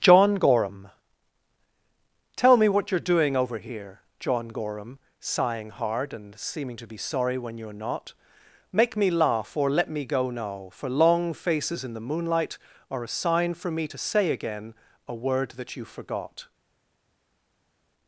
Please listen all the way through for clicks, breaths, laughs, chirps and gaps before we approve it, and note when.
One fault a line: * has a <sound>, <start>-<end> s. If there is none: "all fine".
all fine